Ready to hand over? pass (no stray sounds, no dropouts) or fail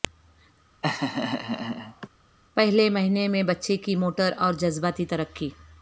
fail